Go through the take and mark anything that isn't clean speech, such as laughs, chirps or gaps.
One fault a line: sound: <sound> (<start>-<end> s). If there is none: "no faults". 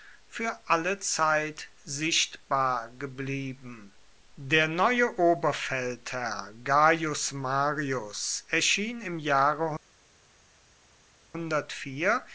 no faults